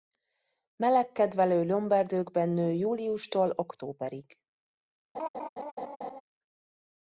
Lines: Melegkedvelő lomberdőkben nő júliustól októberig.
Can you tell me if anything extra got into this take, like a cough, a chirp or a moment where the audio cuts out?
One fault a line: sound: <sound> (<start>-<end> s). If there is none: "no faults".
sound: laugh (5.1-6.2 s)